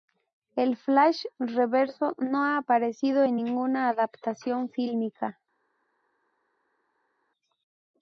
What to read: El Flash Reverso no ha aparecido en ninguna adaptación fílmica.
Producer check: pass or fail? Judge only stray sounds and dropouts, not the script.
pass